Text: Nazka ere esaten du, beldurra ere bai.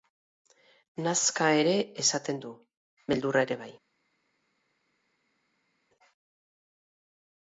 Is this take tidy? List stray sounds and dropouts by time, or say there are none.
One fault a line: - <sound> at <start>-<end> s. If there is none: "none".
none